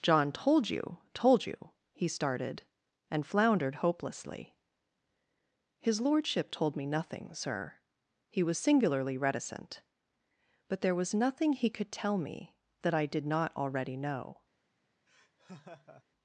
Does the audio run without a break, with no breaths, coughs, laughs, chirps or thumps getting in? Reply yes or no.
no